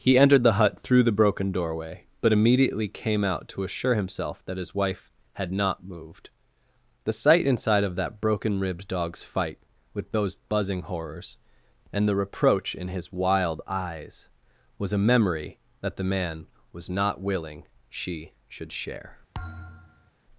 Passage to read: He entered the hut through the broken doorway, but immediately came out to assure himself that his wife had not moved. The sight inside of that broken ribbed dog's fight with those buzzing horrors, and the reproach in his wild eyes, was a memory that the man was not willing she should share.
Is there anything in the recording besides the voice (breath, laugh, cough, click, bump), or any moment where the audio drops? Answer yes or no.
yes